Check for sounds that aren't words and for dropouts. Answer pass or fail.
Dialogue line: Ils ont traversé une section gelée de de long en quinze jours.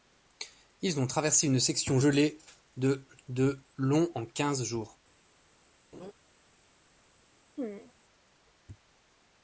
fail